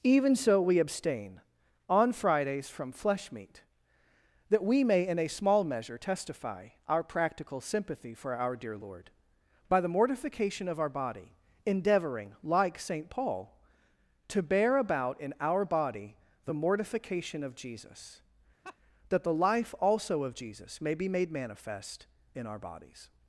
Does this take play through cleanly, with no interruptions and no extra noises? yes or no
no